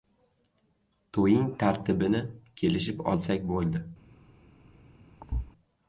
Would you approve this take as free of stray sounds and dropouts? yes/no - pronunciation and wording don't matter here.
no